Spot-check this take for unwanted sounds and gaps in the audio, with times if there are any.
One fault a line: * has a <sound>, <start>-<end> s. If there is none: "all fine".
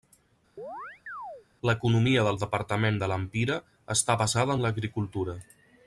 * has a chirp, 0.6-1.5 s